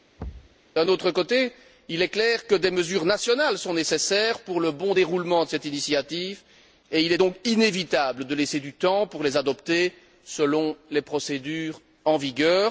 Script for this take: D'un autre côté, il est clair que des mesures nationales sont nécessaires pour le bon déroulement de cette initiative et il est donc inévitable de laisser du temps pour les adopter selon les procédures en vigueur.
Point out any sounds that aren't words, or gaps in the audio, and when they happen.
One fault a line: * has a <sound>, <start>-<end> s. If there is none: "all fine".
* has a thud, 0.2-0.6 s